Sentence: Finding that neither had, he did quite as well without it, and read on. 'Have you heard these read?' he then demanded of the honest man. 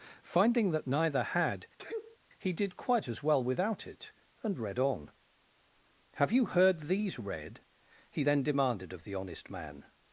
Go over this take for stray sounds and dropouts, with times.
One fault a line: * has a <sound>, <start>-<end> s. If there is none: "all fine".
* has a sneeze, 1.8-2.2 s